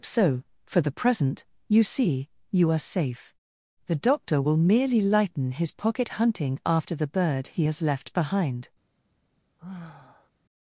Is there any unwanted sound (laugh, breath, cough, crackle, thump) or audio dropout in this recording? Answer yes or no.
yes